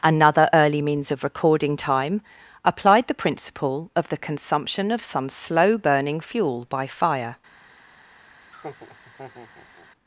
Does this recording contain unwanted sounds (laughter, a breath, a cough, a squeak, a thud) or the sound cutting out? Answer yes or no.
yes